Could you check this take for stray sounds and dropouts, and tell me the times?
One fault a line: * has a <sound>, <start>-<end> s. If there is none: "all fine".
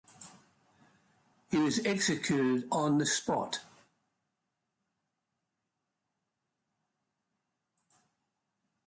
all fine